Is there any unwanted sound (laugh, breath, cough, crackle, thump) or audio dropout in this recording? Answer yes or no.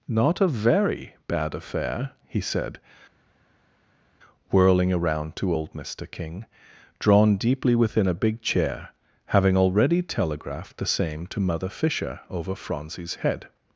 no